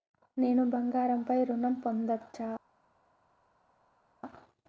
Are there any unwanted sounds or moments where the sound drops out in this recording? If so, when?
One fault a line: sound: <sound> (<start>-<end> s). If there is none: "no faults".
no faults